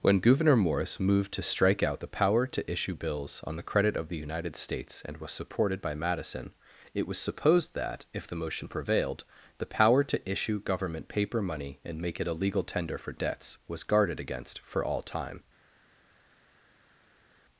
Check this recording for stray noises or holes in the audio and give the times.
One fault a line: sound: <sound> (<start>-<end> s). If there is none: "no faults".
no faults